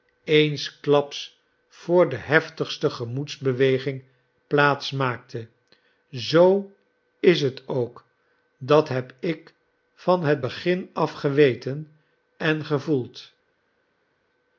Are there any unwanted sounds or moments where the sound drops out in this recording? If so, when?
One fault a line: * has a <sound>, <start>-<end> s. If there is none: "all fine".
all fine